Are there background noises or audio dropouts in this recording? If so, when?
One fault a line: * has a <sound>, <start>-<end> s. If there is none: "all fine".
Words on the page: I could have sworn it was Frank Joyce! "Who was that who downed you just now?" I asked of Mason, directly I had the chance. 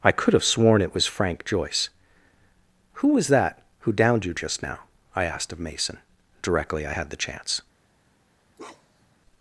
* has a bark, 8.6-9.2 s